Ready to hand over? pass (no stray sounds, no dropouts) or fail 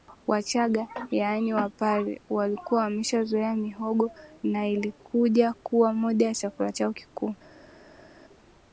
pass